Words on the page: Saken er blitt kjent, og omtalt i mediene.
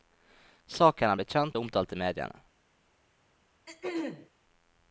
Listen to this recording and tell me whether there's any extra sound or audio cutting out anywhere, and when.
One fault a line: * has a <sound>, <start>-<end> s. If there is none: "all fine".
* has a throat clearing, 3.7-4.3 s